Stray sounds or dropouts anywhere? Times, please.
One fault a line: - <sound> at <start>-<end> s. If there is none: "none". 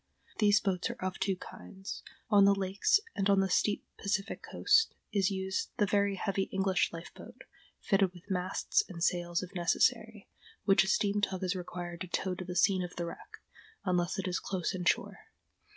none